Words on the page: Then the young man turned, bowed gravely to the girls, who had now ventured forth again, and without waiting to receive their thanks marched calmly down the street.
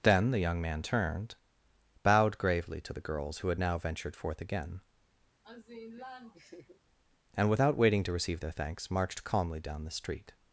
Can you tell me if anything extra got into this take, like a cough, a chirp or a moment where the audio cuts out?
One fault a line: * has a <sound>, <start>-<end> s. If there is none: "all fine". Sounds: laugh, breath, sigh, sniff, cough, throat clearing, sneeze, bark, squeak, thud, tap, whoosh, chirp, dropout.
* has a laugh, 5.4-6.8 s